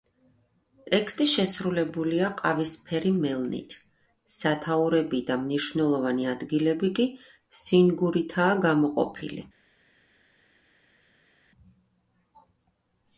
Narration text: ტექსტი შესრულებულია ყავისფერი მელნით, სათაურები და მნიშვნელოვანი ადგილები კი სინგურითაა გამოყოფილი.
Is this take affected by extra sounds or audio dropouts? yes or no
no